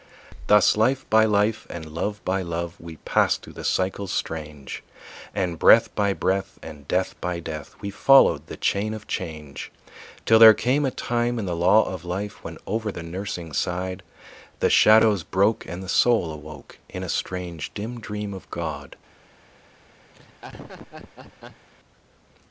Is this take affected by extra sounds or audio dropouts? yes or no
yes